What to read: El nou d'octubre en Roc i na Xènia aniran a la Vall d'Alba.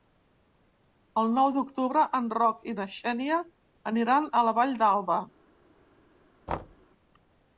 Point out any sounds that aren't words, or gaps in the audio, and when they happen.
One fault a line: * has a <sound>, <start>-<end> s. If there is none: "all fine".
* has a thud, 6.5-6.9 s